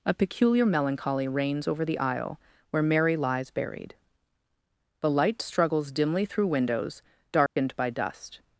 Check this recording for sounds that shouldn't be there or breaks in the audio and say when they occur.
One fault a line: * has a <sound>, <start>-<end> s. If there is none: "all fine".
* has a dropout, 7.5-7.6 s